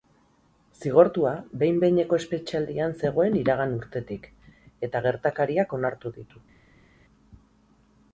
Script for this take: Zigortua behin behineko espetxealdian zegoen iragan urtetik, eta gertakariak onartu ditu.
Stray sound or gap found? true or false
false